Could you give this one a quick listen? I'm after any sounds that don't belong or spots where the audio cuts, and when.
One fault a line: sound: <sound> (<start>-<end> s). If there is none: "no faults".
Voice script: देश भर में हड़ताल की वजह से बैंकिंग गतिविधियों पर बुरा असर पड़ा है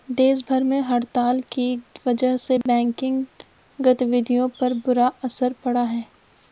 sound: dropout (2.6-2.7 s)